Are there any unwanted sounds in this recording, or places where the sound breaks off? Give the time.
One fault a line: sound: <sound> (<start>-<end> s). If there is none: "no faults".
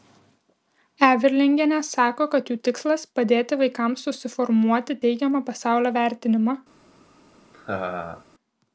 sound: laugh (7.5-8.2 s)